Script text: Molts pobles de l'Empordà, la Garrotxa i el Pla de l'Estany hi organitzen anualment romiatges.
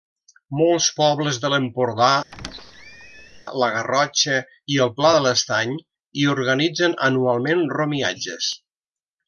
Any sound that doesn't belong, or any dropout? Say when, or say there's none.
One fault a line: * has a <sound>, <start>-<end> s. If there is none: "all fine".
* has a squeak, 2.3-3.4 s